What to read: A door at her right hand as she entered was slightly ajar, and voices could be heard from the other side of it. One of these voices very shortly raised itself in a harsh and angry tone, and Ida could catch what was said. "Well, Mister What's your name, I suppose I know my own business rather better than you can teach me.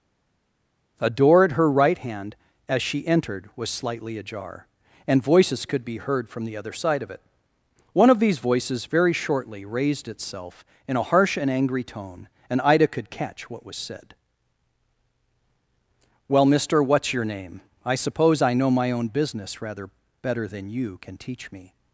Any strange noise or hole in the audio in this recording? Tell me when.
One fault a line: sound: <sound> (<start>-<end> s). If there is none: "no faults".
no faults